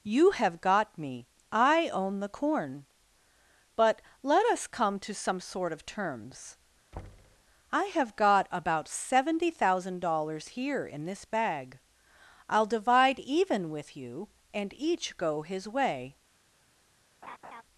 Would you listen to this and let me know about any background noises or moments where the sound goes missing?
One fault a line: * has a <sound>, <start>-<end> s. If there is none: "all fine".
* has a thud, 6.9-7.4 s
* has a laugh, 17.2-17.6 s